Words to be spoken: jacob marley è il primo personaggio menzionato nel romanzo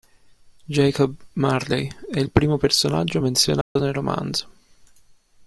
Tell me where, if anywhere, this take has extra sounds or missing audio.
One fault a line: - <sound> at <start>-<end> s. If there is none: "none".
- dropout at 3.6-3.8 s